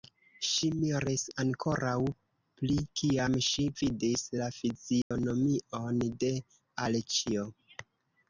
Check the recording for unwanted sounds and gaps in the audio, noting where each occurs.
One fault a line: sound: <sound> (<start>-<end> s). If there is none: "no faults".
sound: dropout (5.0-5.1 s)